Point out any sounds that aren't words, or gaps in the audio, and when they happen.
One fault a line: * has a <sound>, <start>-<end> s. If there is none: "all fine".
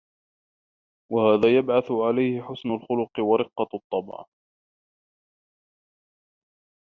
all fine